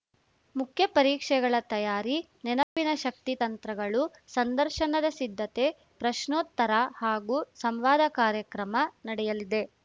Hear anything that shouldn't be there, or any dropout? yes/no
yes